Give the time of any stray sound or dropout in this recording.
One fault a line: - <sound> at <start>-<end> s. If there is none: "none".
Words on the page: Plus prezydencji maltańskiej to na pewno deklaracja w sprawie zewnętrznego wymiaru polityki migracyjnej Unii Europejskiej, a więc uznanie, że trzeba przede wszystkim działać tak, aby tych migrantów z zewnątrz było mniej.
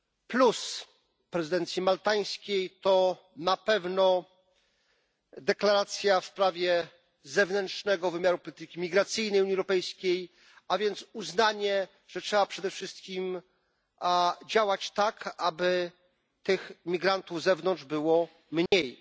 - dropout at 18.7-18.7 s